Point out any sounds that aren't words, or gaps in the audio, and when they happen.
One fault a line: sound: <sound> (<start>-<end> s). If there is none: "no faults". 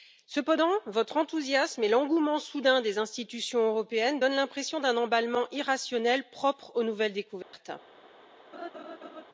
sound: dropout (7.4-7.5 s)
sound: laugh (8.5-9.2 s)